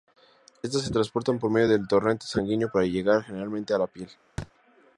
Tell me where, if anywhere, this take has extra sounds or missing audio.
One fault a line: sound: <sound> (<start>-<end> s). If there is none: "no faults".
sound: thud (4.4-4.5 s)